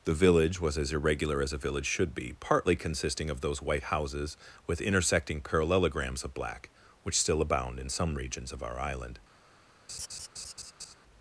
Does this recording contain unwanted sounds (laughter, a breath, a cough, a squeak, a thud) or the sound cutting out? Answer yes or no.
yes